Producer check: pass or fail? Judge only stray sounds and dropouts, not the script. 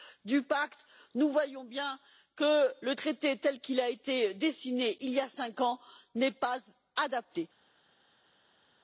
pass